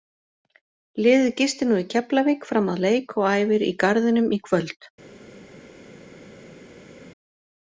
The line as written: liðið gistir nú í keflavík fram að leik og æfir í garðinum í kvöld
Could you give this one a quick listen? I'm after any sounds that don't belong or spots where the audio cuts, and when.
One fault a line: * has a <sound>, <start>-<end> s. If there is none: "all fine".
all fine